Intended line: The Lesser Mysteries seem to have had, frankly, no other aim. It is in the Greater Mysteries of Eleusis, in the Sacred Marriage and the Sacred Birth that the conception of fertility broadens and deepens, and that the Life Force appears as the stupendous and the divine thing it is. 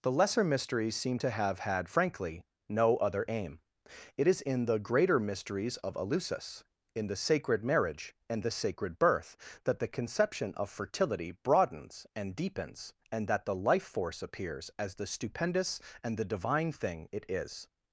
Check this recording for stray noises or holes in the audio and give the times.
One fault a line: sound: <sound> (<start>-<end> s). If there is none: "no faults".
no faults